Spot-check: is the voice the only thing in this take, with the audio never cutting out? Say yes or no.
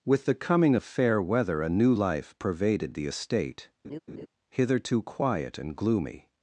no